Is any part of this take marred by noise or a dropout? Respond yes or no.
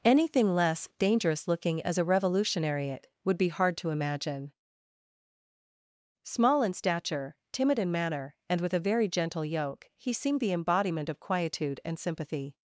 no